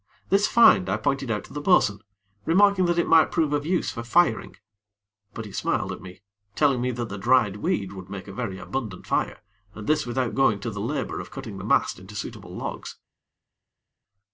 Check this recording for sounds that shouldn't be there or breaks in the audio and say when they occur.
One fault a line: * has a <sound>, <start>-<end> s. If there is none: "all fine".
all fine